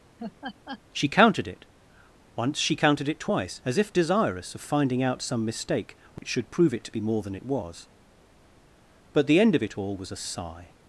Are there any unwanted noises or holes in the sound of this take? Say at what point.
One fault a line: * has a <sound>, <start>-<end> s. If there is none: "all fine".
* has a laugh, 0.2-0.8 s
* has a dropout, 6.2-6.2 s